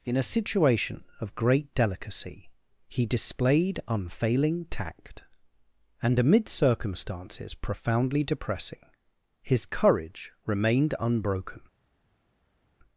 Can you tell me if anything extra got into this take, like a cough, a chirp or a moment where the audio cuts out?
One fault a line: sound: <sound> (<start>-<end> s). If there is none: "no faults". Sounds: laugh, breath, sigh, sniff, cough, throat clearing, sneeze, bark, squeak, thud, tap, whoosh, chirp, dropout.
no faults